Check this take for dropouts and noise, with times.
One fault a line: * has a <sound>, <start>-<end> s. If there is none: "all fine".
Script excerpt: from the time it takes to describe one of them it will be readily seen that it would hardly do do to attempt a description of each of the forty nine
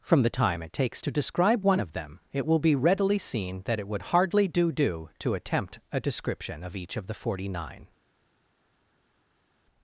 all fine